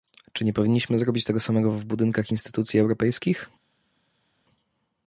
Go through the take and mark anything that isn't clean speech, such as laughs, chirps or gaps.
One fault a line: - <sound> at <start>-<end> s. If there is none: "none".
none